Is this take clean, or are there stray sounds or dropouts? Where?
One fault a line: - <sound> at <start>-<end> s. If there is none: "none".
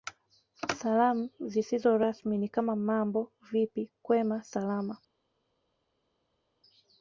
none